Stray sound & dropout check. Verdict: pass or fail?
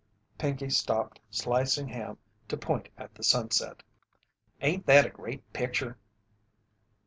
pass